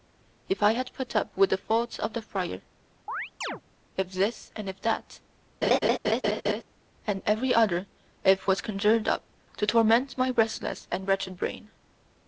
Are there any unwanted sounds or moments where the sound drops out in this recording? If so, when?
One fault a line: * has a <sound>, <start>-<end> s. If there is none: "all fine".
* has a chirp, 3.1-3.6 s
* has a laugh, 5.6-6.6 s